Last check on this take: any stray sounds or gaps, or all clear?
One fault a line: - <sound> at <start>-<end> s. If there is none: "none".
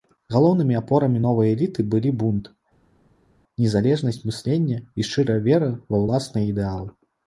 none